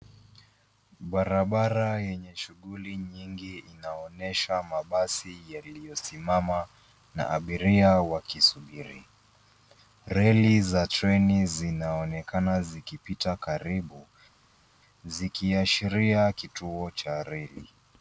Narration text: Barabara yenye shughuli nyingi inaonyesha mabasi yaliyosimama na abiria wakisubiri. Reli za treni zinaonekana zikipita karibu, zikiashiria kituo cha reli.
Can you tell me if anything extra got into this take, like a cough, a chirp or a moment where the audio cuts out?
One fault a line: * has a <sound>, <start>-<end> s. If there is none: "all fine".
all fine